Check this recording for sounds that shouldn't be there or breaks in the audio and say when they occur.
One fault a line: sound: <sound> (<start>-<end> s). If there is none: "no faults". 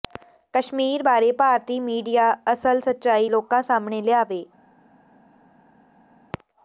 no faults